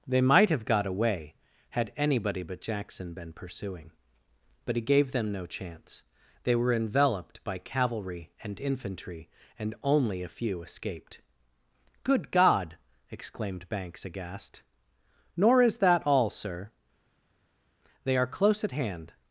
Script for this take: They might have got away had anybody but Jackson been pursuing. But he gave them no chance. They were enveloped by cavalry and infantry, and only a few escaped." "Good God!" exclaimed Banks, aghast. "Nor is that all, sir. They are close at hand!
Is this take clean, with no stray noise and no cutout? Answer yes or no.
yes